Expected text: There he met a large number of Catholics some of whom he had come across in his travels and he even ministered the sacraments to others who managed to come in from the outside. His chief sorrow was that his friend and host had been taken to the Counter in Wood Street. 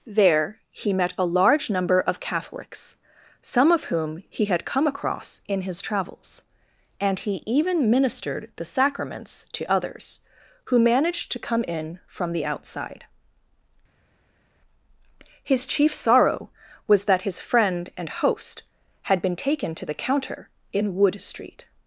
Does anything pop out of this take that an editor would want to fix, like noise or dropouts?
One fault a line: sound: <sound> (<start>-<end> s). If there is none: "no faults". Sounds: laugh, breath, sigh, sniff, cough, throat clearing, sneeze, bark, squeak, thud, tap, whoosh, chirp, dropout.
no faults